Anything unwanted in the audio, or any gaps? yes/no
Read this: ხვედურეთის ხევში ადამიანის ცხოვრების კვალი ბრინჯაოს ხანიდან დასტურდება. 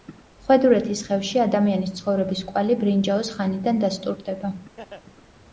yes